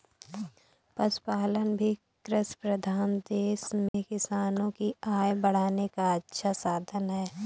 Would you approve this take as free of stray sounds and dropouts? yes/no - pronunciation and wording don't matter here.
no